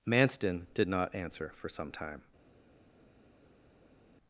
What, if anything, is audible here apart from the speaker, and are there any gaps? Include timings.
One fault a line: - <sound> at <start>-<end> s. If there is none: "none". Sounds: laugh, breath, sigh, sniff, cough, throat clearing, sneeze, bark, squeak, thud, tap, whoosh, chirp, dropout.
none